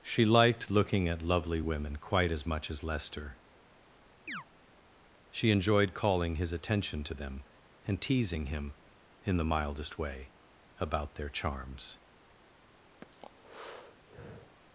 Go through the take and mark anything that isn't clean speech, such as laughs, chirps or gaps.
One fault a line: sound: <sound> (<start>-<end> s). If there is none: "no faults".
sound: chirp (4.3-4.4 s)
sound: breath (13.0-14.6 s)